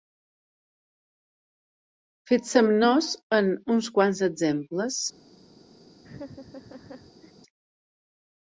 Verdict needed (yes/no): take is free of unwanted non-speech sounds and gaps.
no